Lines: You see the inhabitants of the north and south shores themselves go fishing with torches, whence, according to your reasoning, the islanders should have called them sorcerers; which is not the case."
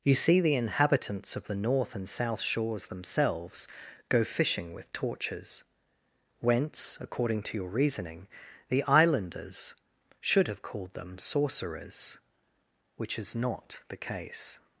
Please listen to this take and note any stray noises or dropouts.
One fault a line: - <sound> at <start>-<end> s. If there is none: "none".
none